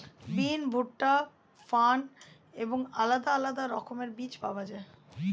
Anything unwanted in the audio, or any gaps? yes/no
no